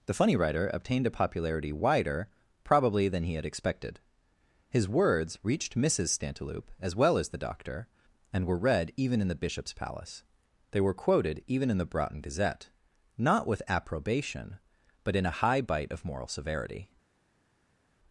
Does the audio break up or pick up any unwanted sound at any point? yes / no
no